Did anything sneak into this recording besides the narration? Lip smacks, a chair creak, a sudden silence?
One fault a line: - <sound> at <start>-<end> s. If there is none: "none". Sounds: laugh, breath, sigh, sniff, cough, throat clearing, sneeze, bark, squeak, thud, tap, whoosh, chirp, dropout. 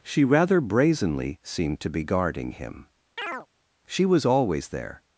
- chirp at 3.2-3.5 s